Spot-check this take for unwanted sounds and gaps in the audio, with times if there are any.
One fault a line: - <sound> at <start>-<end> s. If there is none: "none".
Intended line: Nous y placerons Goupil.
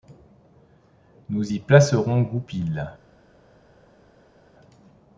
none